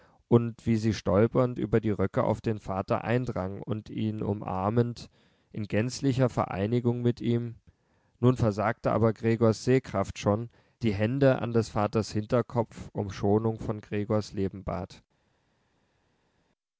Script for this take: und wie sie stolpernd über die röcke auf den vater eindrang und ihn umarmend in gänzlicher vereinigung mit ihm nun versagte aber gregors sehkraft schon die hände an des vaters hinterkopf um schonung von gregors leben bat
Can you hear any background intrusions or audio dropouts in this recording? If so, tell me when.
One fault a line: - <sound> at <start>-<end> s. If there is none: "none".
none